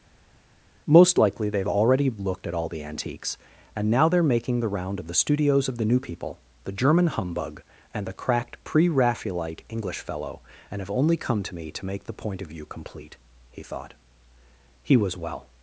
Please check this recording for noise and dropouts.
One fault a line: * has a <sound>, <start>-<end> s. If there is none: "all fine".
all fine